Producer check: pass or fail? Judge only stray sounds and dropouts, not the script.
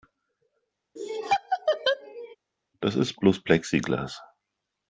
fail